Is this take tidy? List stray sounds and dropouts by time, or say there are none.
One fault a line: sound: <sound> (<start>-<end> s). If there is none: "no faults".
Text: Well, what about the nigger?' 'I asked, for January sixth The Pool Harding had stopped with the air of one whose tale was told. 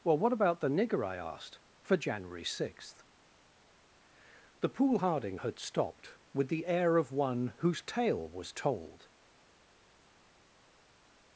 no faults